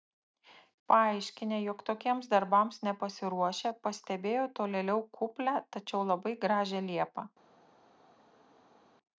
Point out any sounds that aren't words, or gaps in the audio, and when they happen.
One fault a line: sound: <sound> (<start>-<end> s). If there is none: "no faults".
no faults